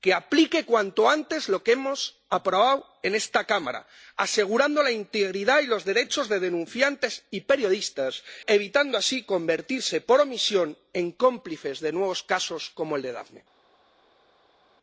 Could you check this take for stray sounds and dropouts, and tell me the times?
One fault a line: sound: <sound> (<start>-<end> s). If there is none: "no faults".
no faults